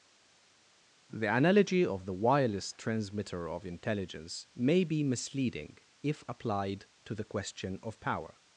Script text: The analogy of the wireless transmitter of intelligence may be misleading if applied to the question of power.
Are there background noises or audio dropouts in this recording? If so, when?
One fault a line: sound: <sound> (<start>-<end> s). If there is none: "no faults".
no faults